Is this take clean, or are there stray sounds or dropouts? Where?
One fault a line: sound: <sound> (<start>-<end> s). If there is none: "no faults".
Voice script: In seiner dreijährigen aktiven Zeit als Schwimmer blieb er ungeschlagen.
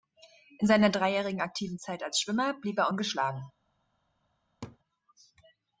sound: laugh (4.6-4.8 s)